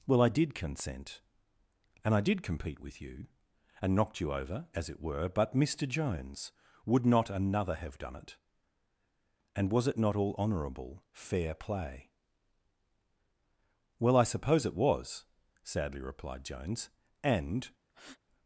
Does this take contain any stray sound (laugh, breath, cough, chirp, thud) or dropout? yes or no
yes